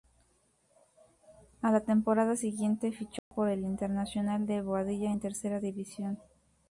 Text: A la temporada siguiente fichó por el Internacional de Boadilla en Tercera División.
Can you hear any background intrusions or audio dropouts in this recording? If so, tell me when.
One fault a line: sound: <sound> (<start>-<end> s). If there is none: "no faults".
sound: dropout (3.2-3.3 s)